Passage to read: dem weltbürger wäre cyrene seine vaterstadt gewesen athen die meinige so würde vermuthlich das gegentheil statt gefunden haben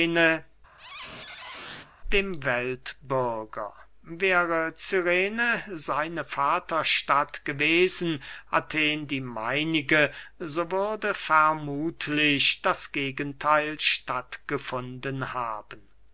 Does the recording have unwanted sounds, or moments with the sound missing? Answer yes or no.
yes